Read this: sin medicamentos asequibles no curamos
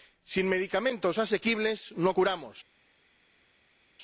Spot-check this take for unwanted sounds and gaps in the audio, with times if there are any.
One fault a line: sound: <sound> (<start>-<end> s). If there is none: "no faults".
no faults